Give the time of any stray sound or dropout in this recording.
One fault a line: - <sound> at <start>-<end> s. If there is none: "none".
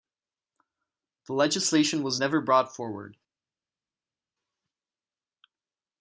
none